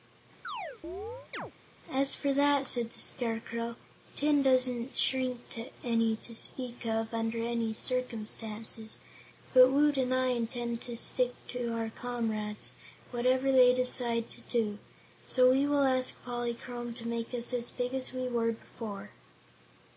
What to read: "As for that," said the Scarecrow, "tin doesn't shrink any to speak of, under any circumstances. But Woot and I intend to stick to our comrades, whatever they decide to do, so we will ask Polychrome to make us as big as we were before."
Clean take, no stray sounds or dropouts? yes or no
no